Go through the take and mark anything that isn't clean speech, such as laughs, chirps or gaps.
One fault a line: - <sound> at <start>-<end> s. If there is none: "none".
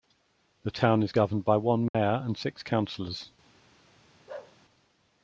- dropout at 1.9-1.9 s
- bark at 4.3-4.6 s